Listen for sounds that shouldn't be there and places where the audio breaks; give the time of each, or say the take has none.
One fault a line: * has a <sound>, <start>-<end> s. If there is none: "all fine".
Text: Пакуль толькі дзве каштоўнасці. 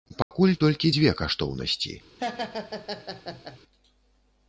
* has a dropout, 0.2-0.3 s
* has a laugh, 2.2-3.6 s